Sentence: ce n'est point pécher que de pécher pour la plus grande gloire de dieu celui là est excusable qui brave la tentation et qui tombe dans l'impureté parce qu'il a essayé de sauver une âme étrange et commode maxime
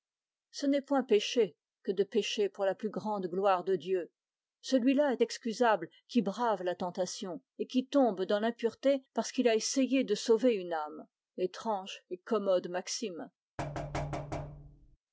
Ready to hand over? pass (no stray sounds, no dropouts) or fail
fail